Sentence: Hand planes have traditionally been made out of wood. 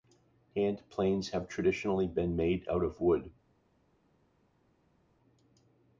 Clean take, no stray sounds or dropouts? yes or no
yes